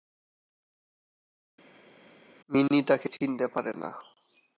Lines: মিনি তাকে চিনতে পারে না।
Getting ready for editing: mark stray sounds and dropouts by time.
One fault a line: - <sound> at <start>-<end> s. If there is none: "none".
none